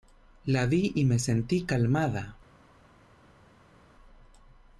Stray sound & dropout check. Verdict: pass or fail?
pass